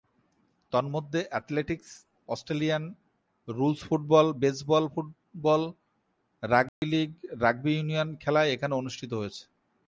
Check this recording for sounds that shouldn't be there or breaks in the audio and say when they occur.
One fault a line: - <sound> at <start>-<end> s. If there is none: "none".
- dropout at 6.7-6.8 s